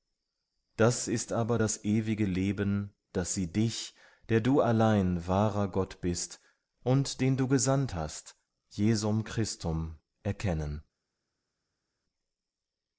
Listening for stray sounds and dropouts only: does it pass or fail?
pass